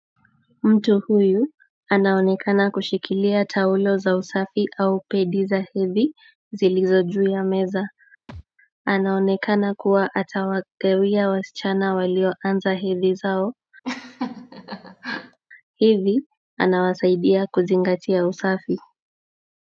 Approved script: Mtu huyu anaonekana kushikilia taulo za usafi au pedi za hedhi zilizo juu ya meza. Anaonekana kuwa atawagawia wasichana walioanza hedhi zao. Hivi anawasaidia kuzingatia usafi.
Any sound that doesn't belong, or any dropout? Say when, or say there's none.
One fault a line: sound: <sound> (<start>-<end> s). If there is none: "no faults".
sound: thud (8.3-8.4 s)
sound: laugh (13.8-15.4 s)